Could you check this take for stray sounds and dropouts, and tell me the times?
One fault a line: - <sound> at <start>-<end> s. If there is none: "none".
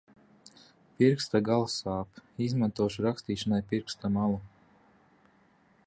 none